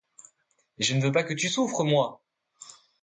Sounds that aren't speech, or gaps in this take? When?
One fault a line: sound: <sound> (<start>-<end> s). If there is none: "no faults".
no faults